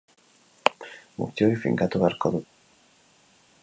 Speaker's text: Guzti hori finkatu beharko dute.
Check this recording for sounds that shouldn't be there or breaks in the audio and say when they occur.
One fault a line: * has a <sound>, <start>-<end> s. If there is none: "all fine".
all fine